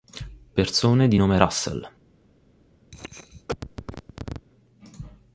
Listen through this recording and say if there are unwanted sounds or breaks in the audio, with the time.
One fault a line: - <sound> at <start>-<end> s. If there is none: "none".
- cough at 2.9-4.5 s